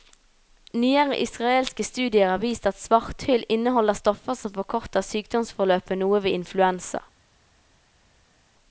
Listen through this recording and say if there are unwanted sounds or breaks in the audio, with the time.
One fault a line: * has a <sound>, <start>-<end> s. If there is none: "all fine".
all fine